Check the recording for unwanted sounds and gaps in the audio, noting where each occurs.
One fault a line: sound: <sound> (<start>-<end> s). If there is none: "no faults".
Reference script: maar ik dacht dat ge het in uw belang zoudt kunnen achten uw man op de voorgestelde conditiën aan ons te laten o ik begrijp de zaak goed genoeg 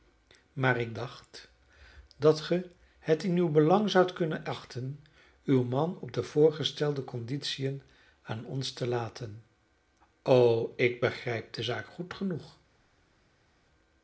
no faults